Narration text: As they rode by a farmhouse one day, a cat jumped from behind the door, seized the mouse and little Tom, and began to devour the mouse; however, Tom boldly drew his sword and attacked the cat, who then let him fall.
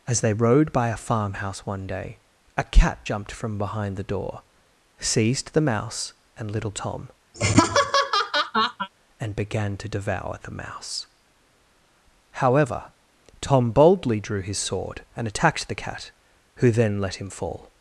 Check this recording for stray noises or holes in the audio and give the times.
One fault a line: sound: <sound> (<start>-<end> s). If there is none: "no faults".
sound: laugh (7.3-8.9 s)